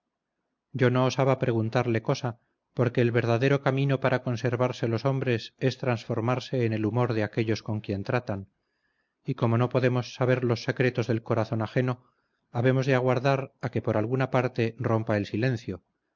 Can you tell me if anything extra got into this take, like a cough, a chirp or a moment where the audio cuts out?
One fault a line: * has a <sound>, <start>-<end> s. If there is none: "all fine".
all fine